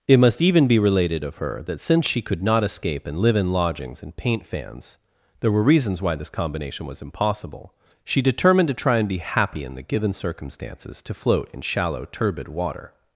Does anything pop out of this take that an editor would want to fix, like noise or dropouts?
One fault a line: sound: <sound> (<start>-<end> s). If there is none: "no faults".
no faults